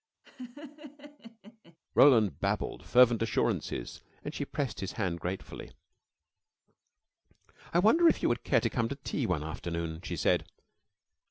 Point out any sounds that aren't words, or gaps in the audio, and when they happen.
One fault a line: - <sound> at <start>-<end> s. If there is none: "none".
- laugh at 0.2-1.8 s